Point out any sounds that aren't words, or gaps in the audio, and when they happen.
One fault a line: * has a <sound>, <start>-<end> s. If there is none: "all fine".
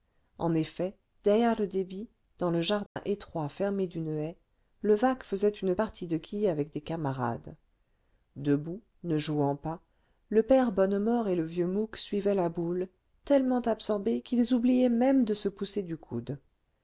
* has a dropout, 2.9-3.0 s